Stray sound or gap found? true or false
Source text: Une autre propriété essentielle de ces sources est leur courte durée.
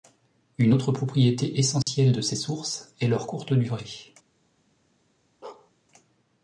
true